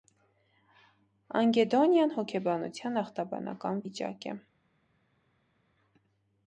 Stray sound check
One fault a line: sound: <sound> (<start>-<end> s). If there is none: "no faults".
no faults